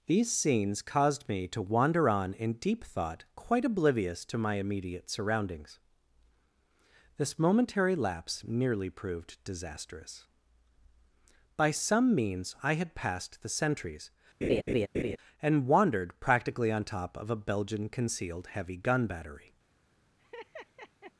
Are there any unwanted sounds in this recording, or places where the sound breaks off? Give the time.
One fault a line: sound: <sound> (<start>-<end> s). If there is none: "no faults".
sound: laugh (14.4-15.2 s)
sound: laugh (20.2-21.1 s)